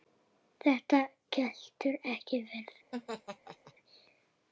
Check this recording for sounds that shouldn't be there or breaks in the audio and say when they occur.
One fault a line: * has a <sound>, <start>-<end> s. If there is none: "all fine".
* has a laugh, 2.9-3.7 s